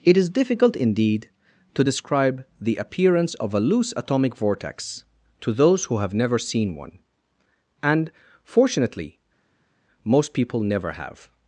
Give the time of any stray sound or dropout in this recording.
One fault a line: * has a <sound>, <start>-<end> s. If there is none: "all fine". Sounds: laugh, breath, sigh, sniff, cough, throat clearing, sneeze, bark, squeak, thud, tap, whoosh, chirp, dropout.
all fine